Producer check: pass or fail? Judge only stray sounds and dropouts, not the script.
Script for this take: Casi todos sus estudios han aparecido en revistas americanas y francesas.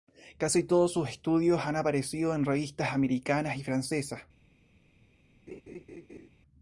fail